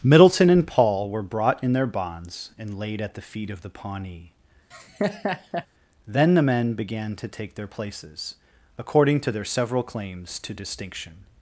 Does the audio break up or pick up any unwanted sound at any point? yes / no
yes